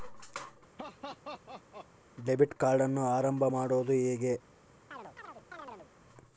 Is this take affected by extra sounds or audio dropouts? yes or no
yes